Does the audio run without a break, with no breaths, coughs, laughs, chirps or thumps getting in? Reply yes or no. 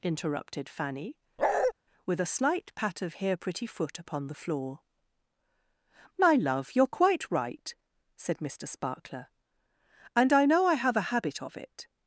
no